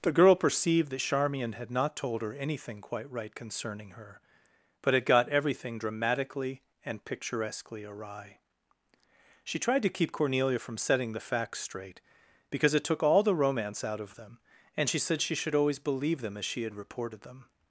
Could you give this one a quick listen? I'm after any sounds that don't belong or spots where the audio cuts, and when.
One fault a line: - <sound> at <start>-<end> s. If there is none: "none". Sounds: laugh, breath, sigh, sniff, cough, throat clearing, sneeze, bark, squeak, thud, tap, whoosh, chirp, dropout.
none